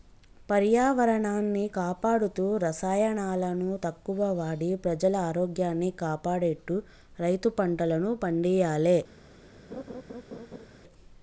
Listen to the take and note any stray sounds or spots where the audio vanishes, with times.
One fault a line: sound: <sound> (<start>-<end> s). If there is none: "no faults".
sound: laugh (9.7-10.7 s)